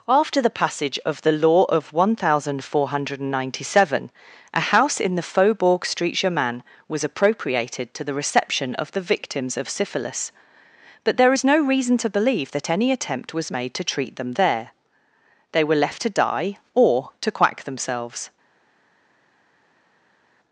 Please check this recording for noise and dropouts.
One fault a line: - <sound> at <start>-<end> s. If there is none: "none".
none